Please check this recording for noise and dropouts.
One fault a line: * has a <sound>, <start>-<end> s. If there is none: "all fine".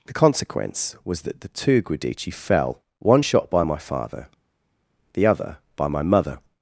all fine